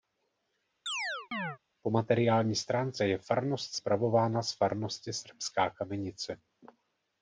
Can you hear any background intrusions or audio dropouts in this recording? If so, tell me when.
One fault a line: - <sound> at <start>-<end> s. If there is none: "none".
- chirp at 0.9-1.6 s